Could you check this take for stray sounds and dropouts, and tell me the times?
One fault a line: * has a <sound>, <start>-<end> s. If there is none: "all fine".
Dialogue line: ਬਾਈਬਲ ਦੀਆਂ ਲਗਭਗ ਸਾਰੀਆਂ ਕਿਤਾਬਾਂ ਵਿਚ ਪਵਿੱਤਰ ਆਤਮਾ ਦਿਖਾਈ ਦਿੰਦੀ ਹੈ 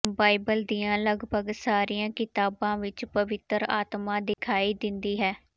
* has a dropout, 4.3-4.4 s